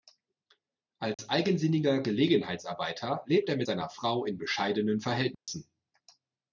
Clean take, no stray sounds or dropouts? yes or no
no